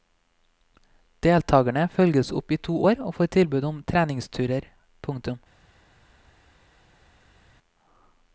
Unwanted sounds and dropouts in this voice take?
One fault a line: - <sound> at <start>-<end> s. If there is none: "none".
none